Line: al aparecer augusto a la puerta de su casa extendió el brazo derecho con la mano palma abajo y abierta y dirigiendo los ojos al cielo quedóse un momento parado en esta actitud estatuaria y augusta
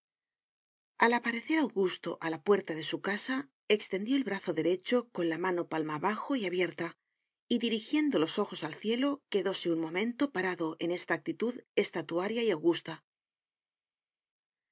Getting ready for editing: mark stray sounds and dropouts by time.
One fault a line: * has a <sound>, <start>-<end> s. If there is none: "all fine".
all fine